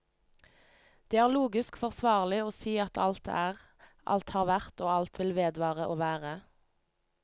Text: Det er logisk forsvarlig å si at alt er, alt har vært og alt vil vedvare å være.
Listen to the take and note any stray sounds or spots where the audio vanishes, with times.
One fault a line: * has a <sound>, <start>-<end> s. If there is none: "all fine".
all fine